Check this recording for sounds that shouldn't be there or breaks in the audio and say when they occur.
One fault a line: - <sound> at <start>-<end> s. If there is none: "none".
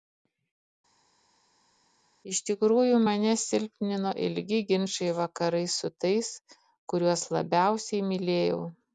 none